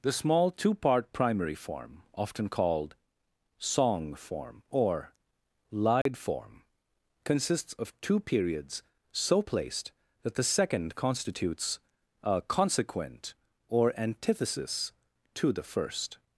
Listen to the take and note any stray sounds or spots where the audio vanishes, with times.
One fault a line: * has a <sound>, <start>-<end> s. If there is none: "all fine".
* has a dropout, 6.0-6.1 s